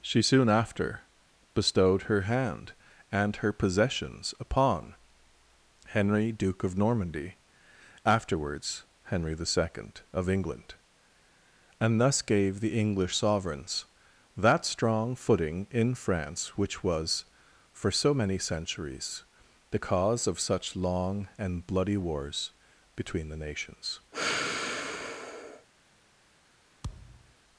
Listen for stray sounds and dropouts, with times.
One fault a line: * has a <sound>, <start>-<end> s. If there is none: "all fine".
* has a sigh, 24.1-25.7 s
* has a thud, 26.8-27.3 s